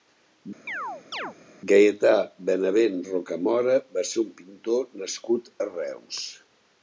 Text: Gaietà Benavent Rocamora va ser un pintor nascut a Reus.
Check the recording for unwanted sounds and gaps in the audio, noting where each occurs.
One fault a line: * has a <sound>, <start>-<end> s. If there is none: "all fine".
* has a chirp, 0.7-1.4 s